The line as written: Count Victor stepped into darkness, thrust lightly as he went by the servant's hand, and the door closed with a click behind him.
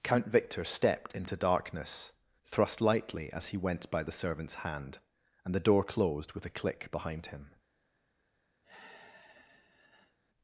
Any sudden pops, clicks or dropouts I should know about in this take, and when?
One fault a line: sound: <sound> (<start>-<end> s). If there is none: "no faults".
sound: sigh (8.6-10.2 s)